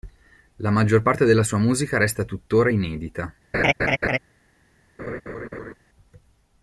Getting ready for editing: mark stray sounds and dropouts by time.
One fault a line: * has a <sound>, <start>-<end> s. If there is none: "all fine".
* has a laugh, 3.5-4.2 s
* has a laugh, 5.0-5.7 s